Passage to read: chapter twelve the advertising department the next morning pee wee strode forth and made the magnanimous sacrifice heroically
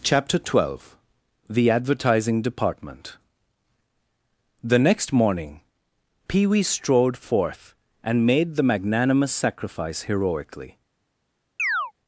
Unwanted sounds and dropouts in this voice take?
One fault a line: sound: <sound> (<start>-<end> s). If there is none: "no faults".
sound: chirp (11.6-11.9 s)